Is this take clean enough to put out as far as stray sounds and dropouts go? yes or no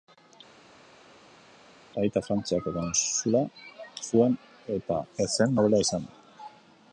yes